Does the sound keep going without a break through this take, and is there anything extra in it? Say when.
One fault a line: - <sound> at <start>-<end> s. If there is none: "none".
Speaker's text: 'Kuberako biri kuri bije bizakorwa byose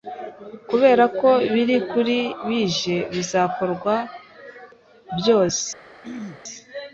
- throat clearing at 6.0-6.4 s